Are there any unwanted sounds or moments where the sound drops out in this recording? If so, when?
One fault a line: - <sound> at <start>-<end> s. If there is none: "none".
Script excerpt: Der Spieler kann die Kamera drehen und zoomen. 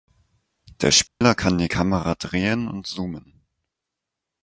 - dropout at 1.1-1.2 s